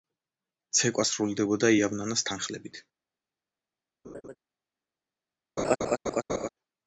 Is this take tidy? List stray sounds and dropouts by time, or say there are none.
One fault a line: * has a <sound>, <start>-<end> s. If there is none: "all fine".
* has a laugh, 4.0-4.4 s
* has a laugh, 5.6-6.5 s